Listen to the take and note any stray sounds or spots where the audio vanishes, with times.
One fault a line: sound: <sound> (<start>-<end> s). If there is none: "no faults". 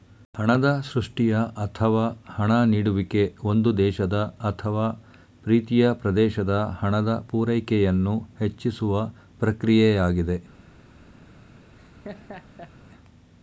sound: laugh (11.8-12.7 s)